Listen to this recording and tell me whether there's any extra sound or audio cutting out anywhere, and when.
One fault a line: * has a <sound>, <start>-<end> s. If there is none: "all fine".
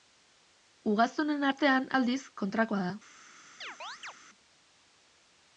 * has a chirp, 3.6-4.1 s